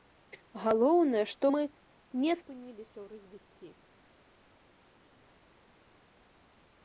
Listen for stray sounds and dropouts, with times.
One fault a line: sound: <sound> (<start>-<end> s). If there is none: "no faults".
no faults